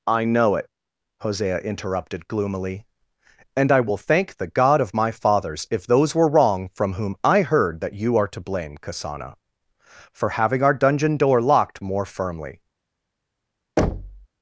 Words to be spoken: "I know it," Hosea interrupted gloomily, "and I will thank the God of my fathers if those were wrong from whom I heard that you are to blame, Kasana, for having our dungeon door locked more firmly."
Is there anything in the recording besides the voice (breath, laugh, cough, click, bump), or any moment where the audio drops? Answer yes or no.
yes